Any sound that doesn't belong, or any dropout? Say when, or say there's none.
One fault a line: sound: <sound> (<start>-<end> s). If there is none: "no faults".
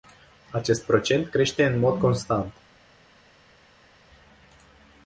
no faults